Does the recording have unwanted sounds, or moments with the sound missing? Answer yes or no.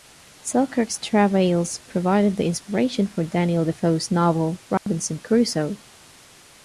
yes